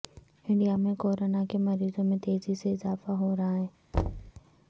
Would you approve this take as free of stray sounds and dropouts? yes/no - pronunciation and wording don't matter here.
no